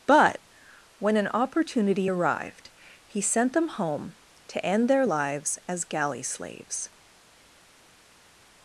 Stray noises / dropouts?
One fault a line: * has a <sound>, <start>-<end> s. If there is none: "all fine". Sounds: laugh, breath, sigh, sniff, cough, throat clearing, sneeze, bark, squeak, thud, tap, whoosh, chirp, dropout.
all fine